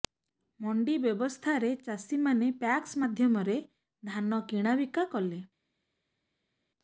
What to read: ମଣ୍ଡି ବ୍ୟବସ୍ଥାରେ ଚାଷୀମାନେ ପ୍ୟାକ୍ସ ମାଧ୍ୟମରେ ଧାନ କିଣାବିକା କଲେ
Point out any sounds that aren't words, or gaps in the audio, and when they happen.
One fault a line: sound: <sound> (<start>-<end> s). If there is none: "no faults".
no faults